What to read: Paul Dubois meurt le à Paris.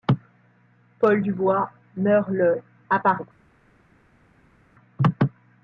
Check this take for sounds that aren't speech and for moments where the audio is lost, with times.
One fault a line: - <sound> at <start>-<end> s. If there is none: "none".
none